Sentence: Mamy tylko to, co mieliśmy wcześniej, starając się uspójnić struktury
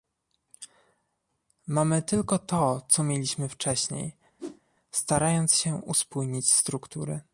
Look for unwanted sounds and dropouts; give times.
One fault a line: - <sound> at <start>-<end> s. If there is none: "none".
- whoosh at 4.4-4.6 s